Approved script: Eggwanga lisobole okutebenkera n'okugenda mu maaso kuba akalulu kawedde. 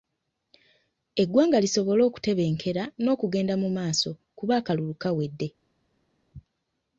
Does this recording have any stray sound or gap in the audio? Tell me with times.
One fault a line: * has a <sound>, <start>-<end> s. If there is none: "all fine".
all fine